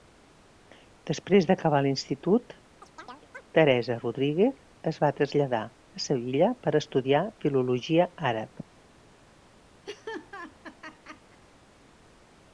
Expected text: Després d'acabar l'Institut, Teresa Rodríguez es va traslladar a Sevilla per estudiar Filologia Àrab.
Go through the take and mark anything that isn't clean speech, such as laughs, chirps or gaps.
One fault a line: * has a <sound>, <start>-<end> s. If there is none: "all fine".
* has a chirp, 2.8-3.4 s
* has a laugh, 9.8-11.4 s